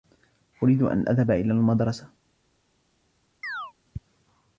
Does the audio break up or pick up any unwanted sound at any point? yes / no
yes